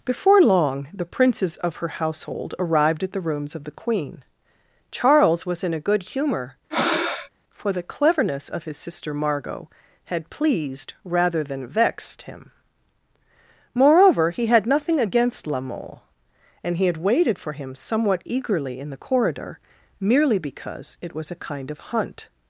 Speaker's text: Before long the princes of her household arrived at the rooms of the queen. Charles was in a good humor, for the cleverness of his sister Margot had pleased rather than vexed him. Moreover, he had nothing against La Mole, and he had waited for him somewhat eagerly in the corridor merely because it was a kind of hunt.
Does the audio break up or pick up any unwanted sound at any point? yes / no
yes